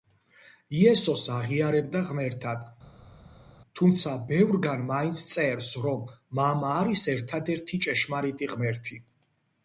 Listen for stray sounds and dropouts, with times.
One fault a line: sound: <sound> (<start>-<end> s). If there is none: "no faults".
no faults